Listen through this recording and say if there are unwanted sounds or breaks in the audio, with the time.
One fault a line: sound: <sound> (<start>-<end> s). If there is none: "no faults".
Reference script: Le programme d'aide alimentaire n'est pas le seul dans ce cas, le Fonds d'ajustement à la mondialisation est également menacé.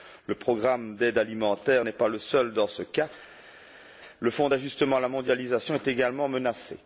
no faults